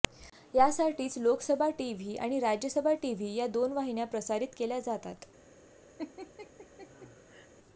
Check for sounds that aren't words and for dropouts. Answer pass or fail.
fail